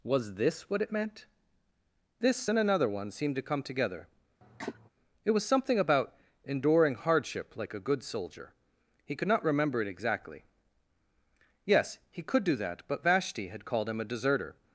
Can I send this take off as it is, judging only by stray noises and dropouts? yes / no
no